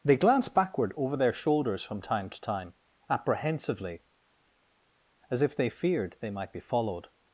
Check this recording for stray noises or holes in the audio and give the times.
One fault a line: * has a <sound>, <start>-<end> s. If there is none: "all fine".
all fine